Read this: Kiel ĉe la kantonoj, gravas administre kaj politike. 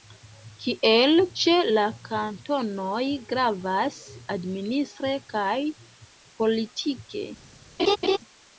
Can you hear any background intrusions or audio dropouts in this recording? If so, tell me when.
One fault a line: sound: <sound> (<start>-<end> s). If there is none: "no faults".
sound: laugh (7.8-8.2 s)